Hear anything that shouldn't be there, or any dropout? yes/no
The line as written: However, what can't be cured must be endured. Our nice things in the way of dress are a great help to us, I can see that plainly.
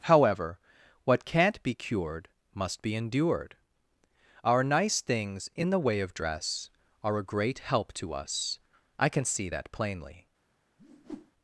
yes